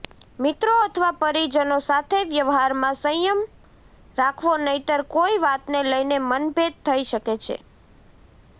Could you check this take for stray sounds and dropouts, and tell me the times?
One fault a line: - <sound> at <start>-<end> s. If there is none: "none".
none